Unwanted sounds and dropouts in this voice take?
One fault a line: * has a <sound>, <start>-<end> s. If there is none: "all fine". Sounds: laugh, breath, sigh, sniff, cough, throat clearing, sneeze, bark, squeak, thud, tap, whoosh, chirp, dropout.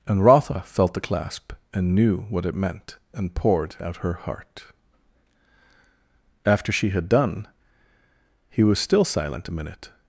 all fine